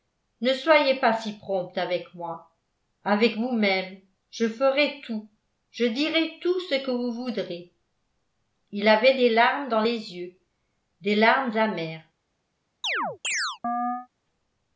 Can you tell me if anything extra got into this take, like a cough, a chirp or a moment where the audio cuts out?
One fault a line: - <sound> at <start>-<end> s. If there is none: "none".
- chirp at 12.8-14.1 s